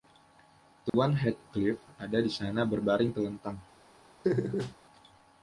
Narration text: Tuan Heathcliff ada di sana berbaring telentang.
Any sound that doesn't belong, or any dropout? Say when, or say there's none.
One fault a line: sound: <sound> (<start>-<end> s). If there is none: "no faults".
sound: dropout (0.9-0.9 s)
sound: laugh (4.2-4.8 s)